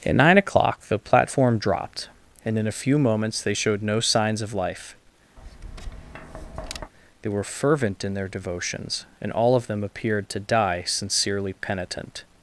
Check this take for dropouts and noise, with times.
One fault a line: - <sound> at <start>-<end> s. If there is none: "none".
- tap at 5.4-6.9 s